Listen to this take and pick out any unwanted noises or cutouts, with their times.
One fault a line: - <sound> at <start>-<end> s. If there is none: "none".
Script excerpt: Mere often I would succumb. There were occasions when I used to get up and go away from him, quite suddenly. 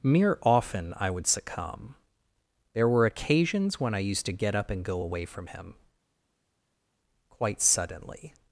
none